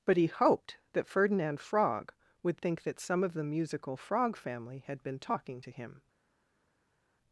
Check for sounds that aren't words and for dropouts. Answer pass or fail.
pass